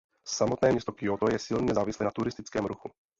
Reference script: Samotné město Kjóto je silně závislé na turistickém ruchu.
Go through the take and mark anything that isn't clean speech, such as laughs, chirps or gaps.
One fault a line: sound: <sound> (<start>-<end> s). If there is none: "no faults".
no faults